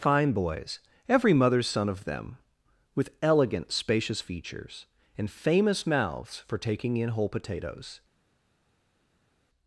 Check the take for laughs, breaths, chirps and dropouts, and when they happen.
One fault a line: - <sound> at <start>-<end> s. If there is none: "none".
none